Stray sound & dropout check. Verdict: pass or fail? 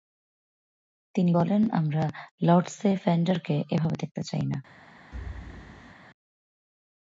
fail